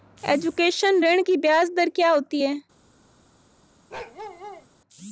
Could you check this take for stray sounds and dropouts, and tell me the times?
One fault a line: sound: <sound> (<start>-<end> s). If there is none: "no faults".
sound: bark (3.9-4.7 s)